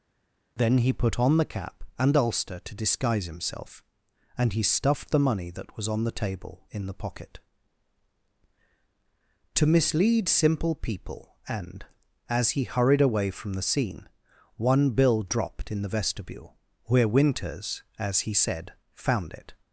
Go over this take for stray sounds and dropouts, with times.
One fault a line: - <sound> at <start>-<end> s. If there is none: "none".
none